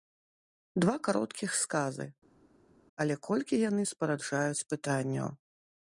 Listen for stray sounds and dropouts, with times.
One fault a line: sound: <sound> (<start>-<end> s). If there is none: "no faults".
no faults